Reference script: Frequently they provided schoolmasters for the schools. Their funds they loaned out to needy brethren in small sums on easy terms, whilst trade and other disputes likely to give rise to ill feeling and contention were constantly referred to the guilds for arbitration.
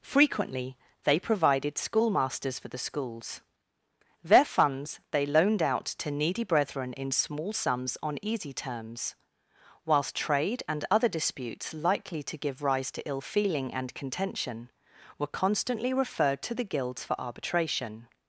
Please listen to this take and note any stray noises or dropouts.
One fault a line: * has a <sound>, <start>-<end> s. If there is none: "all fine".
all fine